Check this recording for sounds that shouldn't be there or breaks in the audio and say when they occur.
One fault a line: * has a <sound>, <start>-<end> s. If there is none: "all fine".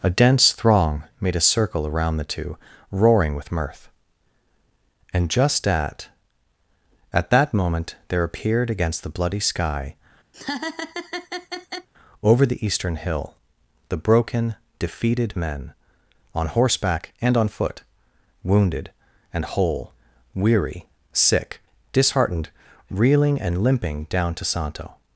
* has a laugh, 10.3-11.9 s